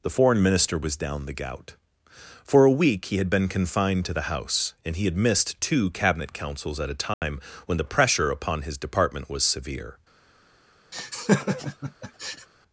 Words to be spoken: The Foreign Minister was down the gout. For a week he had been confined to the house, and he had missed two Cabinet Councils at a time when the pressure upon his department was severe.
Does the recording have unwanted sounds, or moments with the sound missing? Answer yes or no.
yes